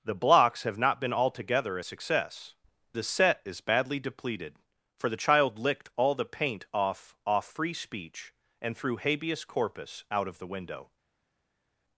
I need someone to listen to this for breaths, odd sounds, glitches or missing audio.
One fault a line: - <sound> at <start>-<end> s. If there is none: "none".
none